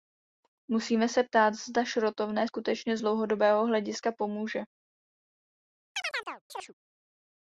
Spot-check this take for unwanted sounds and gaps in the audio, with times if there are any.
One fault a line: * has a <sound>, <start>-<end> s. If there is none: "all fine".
* has a chirp, 5.9-6.7 s